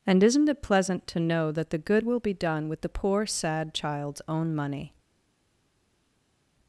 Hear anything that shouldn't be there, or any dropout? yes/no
no